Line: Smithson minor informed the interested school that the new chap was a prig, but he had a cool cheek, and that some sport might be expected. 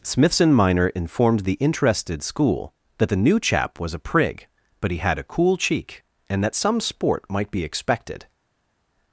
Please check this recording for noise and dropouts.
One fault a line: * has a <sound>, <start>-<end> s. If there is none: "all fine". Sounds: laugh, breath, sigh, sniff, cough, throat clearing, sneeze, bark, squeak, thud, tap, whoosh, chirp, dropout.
all fine